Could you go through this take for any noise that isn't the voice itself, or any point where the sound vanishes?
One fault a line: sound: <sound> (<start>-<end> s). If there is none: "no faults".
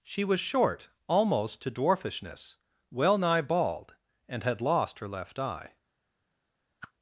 sound: whoosh (6.8-6.9 s)